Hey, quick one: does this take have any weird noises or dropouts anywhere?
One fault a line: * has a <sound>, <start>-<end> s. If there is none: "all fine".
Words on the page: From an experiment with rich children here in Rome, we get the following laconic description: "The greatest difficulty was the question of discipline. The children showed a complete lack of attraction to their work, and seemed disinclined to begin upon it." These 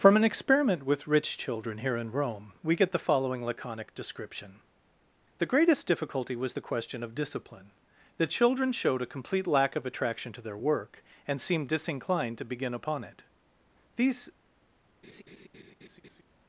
* has a laugh, 15.0-16.2 s